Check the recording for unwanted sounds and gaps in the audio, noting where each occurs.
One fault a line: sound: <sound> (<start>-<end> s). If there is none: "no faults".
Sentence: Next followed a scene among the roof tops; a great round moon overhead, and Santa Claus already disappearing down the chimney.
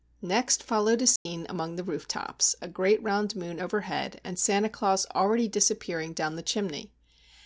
sound: dropout (1.2-1.3 s)